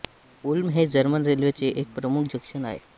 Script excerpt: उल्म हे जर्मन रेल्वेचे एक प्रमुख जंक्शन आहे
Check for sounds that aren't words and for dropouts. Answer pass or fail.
pass